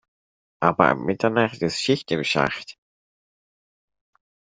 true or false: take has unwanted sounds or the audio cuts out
false